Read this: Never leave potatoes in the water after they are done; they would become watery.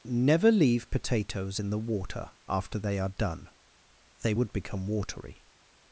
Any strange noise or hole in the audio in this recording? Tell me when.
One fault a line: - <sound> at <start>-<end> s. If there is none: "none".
none